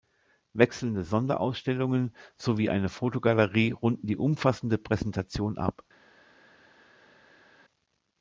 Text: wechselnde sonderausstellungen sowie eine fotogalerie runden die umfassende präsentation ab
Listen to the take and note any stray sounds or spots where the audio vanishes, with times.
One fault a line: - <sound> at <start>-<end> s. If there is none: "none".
none